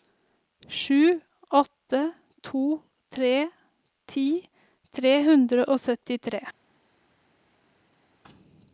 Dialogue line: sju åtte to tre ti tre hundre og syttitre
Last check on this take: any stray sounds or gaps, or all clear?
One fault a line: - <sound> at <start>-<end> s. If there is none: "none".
none